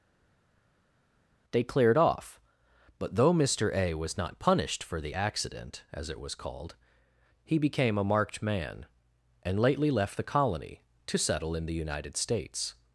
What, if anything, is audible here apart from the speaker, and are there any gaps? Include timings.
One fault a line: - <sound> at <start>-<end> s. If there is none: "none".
none